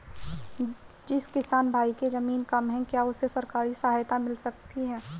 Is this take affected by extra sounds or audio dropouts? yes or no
no